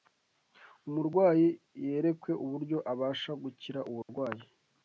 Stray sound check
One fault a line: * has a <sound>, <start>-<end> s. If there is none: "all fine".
* has a dropout, 4.0-4.1 s